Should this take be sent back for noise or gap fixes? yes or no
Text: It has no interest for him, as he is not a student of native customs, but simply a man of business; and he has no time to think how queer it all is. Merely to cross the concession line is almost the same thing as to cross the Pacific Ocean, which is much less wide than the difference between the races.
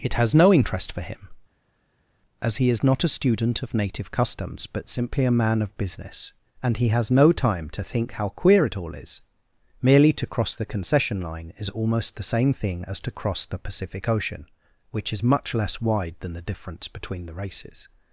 no